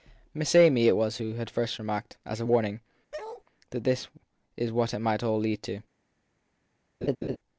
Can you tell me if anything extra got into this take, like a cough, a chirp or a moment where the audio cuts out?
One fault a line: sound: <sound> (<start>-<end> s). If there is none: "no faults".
sound: bark (3.1-3.4 s)
sound: laugh (7.0-7.4 s)